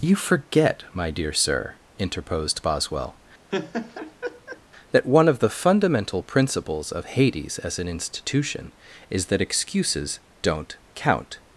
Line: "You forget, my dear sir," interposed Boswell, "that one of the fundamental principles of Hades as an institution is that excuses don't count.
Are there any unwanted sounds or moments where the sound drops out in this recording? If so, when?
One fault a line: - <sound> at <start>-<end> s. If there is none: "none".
- laugh at 3.5-4.6 s